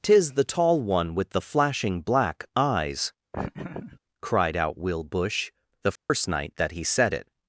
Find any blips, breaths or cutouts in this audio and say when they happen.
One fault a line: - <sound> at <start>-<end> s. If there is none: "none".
- laugh at 3.3-4.0 s
- dropout at 6.0-6.1 s